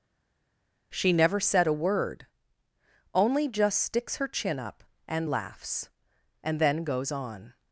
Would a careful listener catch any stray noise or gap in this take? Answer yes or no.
no